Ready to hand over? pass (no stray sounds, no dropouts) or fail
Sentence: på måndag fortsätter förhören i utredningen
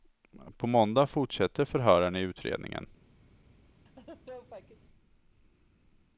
fail